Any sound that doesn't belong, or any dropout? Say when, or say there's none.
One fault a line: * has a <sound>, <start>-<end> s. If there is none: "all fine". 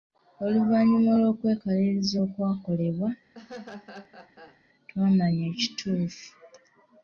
* has a laugh, 3.3-4.6 s